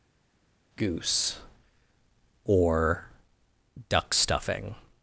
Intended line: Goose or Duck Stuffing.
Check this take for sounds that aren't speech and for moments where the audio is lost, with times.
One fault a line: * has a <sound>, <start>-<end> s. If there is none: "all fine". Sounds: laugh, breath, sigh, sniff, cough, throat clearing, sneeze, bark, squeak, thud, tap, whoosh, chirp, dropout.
all fine